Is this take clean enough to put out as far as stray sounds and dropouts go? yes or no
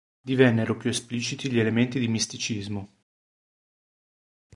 yes